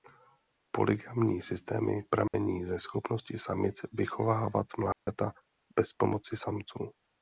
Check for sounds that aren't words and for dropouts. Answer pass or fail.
fail